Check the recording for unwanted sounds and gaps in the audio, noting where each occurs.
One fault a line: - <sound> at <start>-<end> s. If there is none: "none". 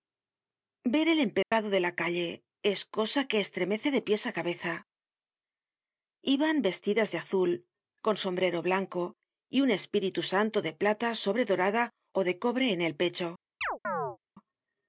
- dropout at 1.4-1.5 s
- chirp at 13.6-14.2 s